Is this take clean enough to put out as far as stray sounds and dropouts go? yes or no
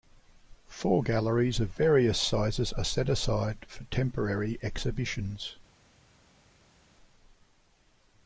yes